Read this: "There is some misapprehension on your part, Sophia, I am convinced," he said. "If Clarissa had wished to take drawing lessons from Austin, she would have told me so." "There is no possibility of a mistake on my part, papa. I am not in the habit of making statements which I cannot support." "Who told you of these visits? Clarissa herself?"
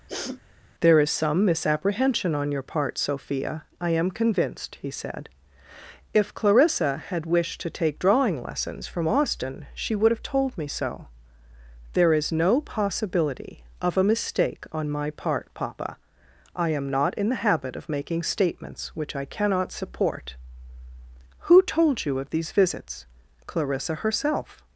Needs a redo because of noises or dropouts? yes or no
yes